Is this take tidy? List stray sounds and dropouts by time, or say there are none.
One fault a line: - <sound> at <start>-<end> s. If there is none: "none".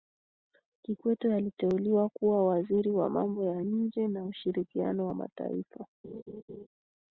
- laugh at 6.0-6.7 s